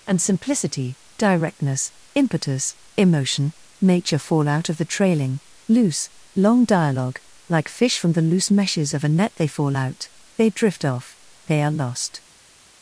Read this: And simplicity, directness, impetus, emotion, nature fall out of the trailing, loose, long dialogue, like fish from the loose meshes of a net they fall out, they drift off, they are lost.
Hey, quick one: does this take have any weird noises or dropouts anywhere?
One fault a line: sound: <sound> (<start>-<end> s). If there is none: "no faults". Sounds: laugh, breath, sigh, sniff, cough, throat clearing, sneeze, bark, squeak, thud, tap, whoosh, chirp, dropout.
no faults